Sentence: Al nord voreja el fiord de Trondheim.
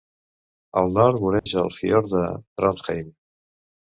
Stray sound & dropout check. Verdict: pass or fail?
fail